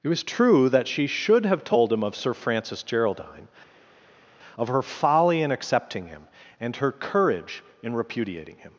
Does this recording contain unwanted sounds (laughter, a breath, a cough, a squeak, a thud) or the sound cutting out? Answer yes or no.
no